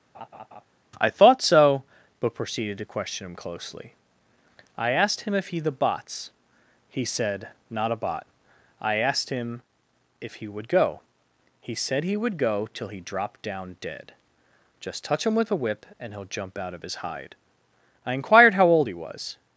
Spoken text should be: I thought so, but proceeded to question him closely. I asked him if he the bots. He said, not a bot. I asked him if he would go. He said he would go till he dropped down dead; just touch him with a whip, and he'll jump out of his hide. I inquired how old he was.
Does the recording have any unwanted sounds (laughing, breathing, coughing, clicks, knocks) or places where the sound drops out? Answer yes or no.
yes